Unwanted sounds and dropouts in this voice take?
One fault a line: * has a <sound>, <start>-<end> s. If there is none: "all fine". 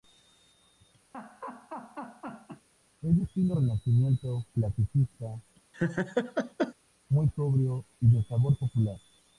* has a laugh, 1.1-2.7 s
* has a laugh, 5.7-6.7 s